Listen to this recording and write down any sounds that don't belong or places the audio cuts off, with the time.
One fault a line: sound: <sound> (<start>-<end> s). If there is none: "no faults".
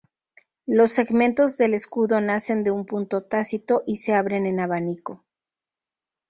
no faults